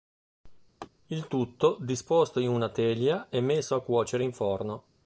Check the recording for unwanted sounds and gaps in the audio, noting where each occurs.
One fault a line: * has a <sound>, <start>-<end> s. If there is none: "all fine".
* has a laugh, 0.8-0.9 s